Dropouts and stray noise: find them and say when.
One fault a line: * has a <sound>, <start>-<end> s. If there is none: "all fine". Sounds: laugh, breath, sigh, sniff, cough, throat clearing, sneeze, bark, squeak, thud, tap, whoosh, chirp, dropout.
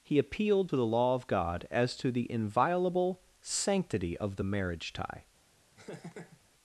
* has a laugh, 5.8-6.4 s